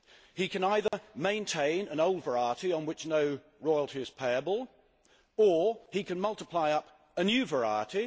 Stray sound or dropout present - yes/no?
yes